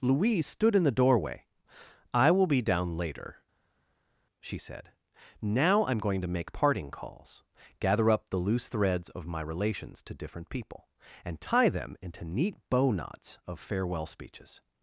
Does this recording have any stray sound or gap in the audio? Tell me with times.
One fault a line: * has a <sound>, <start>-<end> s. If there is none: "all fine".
all fine